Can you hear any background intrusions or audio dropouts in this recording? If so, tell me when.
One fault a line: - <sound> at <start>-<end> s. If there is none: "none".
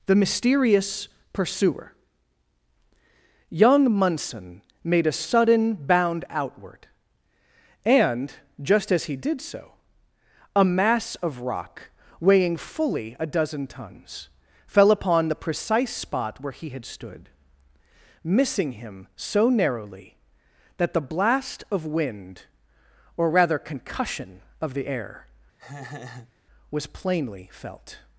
- laugh at 25.6-26.3 s